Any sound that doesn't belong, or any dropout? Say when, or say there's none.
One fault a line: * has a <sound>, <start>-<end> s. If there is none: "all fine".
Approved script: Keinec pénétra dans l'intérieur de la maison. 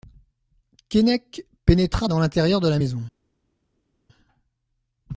all fine